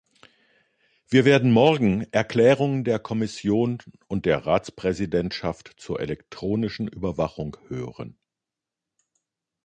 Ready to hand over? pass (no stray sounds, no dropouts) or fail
pass